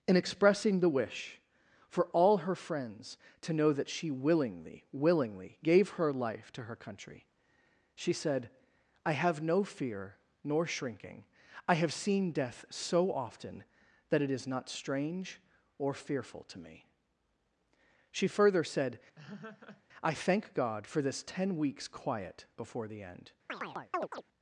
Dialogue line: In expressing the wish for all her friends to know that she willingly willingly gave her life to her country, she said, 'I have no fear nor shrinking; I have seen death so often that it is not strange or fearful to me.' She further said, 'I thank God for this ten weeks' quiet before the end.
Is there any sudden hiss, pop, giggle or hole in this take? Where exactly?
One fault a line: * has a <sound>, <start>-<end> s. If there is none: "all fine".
* has a laugh, 19.2-19.8 s
* has a chirp, 23.5-24.2 s